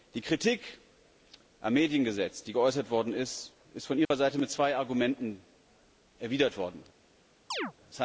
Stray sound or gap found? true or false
true